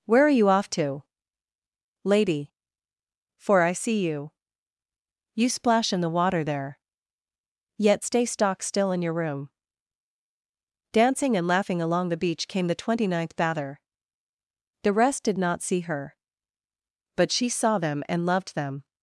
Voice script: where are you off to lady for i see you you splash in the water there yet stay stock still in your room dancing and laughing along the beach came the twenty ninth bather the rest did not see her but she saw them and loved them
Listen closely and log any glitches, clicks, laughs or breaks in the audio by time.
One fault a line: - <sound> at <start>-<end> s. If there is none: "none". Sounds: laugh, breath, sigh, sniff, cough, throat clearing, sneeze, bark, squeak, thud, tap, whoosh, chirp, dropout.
none